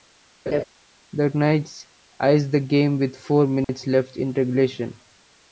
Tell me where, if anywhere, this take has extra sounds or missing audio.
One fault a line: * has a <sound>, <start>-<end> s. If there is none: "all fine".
* has a laugh, 0.5-0.6 s
* has a dropout, 3.6-3.7 s